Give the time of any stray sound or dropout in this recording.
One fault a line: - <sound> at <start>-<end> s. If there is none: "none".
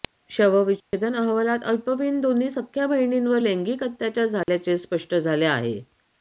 - dropout at 0.8-0.9 s
- dropout at 4.4-4.5 s